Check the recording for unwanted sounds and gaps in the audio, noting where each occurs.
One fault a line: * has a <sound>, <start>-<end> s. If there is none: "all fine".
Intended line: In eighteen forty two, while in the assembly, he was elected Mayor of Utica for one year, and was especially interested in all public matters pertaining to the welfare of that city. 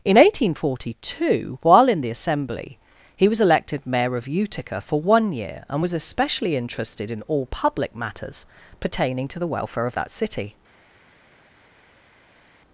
all fine